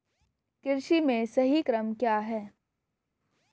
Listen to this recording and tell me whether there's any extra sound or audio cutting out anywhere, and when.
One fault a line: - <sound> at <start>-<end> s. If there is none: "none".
none